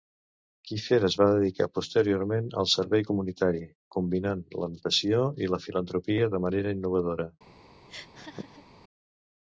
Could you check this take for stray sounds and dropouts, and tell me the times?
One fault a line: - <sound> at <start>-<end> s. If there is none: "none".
- laugh at 7.9-8.7 s